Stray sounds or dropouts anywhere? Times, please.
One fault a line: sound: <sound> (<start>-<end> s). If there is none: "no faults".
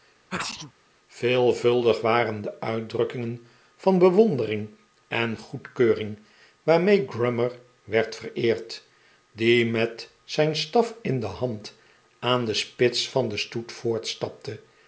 sound: sneeze (0.3-0.7 s)